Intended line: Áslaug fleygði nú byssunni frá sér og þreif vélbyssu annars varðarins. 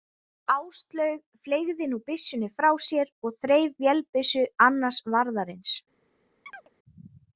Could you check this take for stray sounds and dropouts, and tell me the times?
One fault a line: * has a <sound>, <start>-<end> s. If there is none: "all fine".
* has a chirp, 6.5-6.7 s